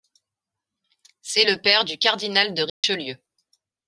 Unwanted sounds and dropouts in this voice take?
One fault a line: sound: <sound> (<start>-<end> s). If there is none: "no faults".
sound: dropout (2.7-2.8 s)